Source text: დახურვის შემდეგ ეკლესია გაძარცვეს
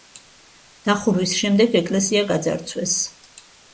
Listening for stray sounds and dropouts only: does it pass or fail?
pass